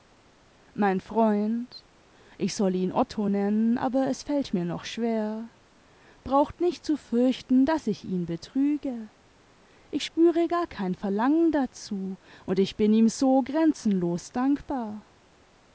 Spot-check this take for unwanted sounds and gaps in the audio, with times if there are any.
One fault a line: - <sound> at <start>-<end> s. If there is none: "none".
none